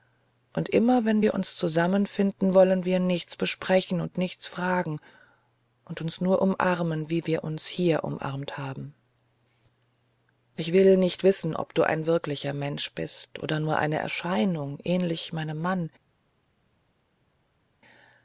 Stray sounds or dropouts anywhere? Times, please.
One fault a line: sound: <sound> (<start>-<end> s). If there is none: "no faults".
no faults